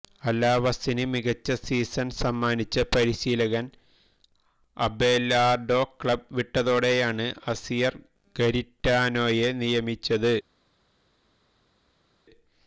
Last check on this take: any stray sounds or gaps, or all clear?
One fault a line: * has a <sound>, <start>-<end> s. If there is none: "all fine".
all fine